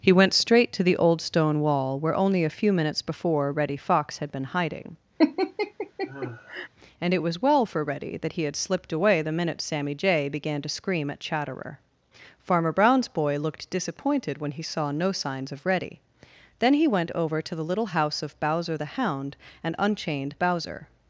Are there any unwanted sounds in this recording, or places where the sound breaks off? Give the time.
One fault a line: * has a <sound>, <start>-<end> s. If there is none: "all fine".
* has a laugh, 5.2-6.7 s